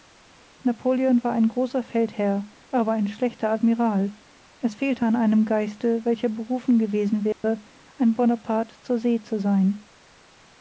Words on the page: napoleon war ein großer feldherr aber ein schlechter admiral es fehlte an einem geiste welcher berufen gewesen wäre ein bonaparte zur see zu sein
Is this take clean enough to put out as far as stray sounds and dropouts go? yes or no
no